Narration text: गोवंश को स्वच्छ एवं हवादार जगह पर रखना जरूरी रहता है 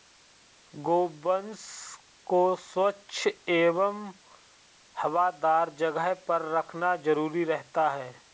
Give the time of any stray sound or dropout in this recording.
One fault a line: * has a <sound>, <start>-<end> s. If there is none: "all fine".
all fine